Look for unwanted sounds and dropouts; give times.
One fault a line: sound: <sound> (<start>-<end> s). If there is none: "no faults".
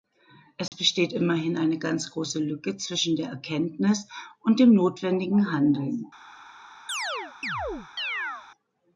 sound: dropout (0.7-0.7 s)
sound: chirp (6.9-8.5 s)